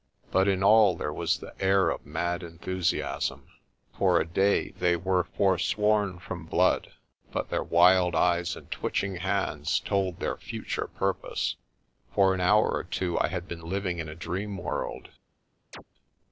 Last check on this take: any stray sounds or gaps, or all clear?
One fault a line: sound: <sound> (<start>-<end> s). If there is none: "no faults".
sound: chirp (15.7-15.8 s)